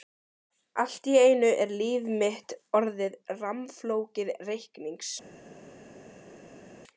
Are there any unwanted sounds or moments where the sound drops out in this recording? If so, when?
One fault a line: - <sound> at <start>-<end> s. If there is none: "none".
none